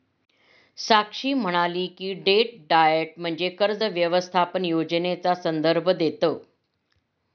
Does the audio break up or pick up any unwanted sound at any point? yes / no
no